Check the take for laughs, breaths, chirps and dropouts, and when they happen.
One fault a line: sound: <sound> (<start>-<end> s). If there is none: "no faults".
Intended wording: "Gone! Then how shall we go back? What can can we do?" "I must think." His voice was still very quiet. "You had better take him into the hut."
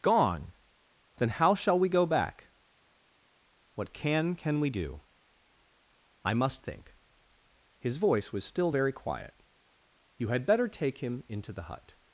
no faults